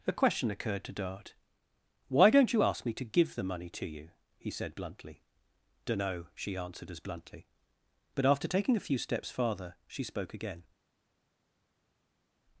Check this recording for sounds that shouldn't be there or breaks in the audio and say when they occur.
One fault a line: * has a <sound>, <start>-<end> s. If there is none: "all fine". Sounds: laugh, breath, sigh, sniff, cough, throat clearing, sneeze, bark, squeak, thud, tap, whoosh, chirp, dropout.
all fine